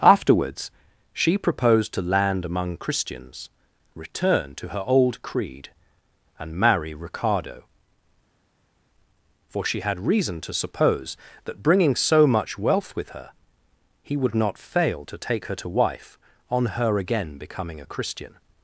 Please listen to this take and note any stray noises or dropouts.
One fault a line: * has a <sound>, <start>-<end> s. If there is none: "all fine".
all fine